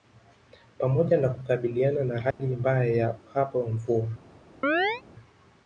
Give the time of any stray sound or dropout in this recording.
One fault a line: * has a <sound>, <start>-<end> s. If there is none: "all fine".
* has a dropout, 2.3-2.4 s
* has a chirp, 4.6-5.0 s